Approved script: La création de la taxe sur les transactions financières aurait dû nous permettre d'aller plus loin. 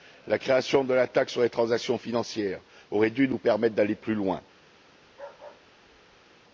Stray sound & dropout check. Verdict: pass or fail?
fail